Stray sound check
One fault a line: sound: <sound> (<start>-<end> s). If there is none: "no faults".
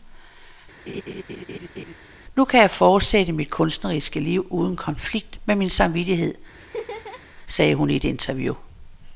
sound: laugh (0.9-1.9 s)
sound: laugh (6.6-7.3 s)